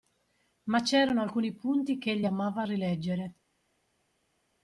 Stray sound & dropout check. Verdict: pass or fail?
pass